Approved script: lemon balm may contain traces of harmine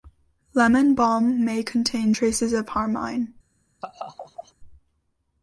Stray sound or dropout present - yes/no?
yes